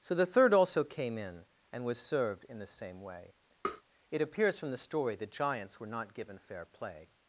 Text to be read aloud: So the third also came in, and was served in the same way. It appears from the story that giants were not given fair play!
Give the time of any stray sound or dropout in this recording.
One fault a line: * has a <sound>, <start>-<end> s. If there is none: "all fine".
* has a tap, 3.6-3.8 s